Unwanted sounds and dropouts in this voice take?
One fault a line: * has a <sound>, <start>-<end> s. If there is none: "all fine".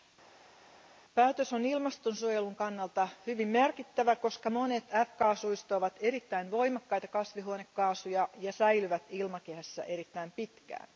all fine